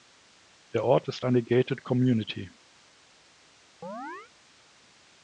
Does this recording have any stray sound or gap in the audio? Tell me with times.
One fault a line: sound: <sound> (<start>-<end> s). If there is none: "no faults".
sound: chirp (3.8-4.3 s)